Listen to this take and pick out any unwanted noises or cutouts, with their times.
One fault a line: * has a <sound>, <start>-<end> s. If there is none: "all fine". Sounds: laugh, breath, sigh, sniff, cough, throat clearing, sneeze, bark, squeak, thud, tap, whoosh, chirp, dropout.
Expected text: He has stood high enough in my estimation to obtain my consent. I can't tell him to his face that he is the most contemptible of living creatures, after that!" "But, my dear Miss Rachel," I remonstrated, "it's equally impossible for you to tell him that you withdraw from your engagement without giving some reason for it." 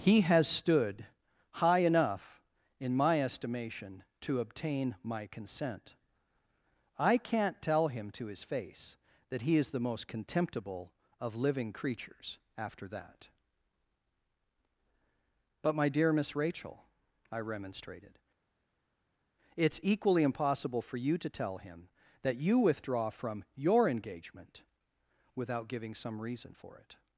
all fine